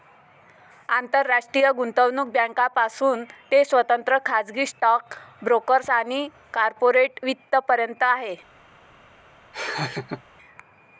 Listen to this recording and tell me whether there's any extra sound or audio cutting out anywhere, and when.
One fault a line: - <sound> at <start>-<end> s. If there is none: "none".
- laugh at 9.5-10.2 s